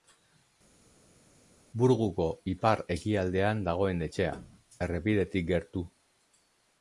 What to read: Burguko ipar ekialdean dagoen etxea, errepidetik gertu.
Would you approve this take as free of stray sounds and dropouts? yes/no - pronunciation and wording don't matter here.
yes